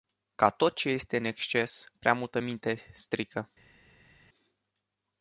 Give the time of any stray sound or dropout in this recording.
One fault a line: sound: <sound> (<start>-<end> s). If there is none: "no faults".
no faults